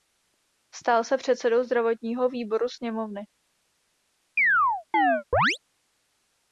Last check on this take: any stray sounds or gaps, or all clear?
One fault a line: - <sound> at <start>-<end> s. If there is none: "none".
- chirp at 4.4-5.6 s